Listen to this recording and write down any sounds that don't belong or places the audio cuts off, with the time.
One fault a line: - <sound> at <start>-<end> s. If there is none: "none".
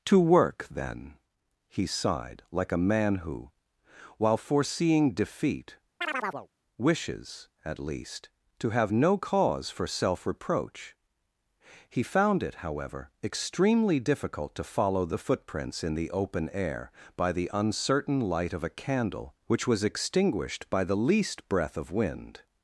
- chirp at 6.0-6.5 s